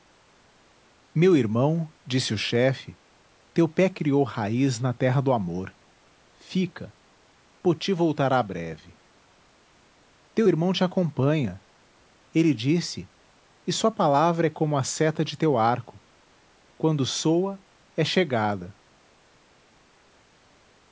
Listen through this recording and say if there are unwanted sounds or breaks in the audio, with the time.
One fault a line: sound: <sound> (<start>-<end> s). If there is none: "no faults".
no faults